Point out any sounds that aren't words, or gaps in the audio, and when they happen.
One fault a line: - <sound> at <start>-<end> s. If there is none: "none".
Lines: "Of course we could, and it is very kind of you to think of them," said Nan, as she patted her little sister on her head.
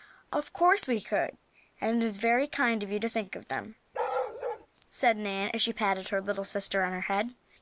- bark at 3.9-4.7 s